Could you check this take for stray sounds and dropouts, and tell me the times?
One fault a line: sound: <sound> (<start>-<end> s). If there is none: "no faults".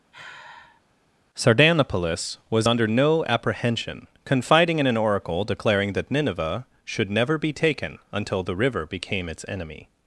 sound: sigh (0.1-0.8 s)